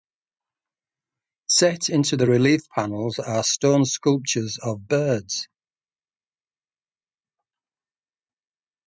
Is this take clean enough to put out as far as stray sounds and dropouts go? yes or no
yes